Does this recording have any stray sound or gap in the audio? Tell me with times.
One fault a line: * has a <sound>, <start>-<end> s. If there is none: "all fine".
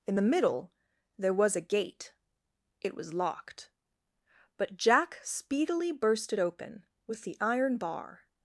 all fine